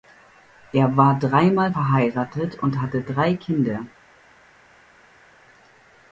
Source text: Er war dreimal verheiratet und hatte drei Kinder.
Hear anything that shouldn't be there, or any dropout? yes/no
no